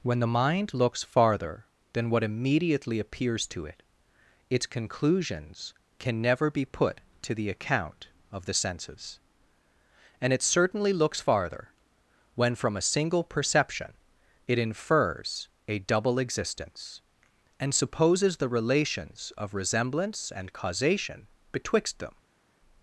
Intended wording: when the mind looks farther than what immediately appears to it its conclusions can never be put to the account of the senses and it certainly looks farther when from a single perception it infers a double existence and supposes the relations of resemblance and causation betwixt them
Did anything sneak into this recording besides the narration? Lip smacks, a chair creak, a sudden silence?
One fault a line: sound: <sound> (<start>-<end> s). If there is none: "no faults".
no faults